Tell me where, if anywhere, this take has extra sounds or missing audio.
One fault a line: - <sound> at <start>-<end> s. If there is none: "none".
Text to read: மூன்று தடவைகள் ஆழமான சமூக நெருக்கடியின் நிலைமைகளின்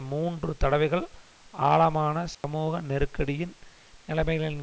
- dropout at 2.3-2.4 s